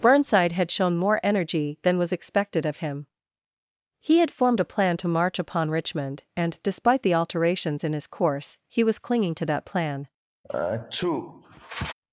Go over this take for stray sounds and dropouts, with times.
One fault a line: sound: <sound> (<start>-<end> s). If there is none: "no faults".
sound: sneeze (10.4-11.9 s)